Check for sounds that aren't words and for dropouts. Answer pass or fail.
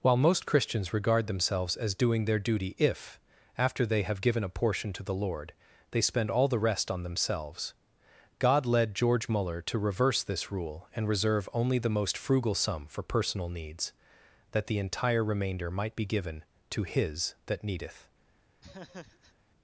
fail